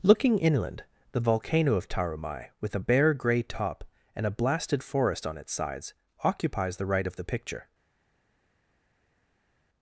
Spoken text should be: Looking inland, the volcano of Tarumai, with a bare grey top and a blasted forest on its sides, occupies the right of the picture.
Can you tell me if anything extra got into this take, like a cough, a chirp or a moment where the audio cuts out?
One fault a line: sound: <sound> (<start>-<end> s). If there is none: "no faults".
no faults